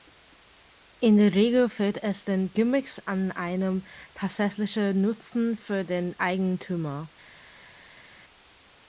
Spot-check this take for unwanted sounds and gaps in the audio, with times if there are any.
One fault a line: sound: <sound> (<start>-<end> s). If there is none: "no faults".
no faults